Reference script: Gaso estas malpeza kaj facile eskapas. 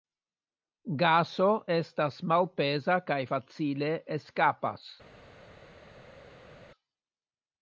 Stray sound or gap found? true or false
false